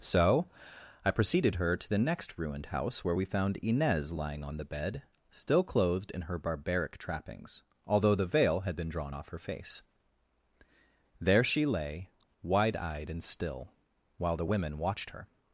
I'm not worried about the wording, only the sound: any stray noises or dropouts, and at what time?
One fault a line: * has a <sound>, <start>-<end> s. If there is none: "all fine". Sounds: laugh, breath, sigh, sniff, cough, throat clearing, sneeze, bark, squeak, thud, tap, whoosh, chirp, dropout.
all fine